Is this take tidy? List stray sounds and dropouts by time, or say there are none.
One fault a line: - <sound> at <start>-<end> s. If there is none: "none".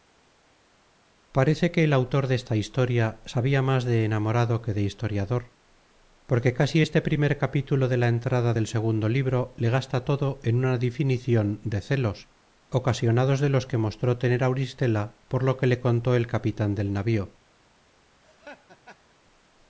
- laugh at 18.2-19.2 s